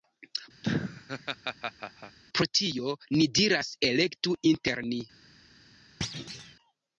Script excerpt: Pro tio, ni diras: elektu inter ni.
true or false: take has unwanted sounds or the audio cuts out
true